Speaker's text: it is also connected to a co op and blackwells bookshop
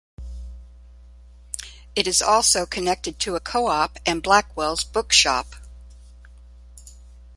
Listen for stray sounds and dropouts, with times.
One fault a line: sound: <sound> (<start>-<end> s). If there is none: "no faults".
no faults